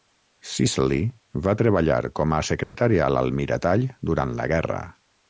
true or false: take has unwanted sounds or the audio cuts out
true